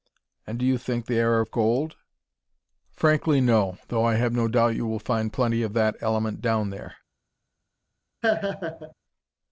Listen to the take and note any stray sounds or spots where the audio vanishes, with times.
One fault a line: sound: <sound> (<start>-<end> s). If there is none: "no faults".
sound: laugh (8.2-8.9 s)